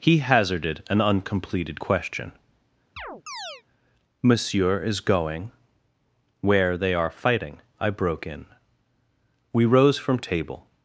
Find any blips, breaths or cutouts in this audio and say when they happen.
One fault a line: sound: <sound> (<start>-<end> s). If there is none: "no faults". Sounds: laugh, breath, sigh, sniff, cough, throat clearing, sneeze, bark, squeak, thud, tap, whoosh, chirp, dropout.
sound: chirp (3.0-3.6 s)